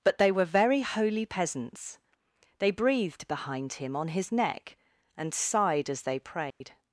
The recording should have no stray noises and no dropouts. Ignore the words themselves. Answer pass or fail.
fail